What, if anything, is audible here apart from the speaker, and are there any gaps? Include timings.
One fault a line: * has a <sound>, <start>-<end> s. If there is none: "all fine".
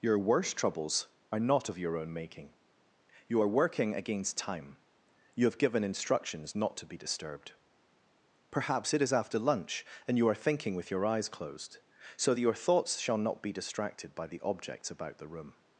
all fine